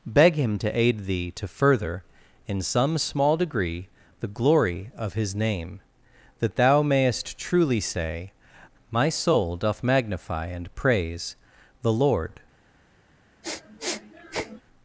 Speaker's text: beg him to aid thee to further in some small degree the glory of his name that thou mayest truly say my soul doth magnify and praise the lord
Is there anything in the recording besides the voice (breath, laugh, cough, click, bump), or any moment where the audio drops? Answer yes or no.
yes